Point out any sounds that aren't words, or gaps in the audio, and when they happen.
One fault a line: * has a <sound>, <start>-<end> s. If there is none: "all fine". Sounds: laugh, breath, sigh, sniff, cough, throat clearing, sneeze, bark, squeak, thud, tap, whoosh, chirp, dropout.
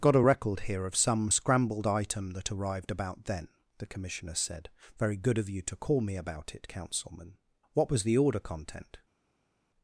all fine